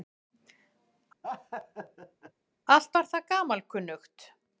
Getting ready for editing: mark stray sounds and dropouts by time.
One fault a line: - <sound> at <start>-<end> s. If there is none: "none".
- laugh at 1.2-2.3 s